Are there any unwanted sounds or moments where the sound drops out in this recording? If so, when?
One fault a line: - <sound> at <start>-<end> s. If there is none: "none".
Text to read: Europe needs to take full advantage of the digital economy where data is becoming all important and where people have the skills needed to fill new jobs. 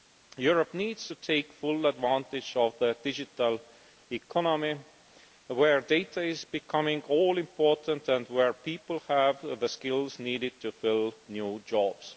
none